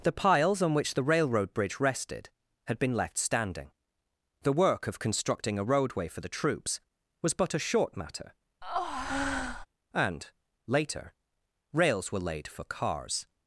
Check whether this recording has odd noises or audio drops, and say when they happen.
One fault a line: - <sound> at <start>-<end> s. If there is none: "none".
- breath at 8.6-9.7 s